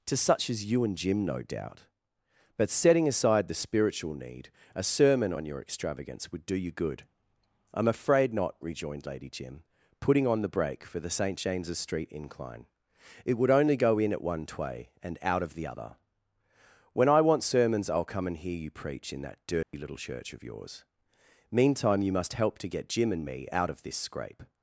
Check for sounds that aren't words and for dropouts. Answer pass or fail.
fail